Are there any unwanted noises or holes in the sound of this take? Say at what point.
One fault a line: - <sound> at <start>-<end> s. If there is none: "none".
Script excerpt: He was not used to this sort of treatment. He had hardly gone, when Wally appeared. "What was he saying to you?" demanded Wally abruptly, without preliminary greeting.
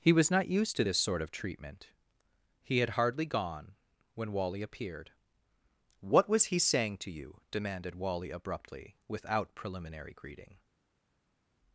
none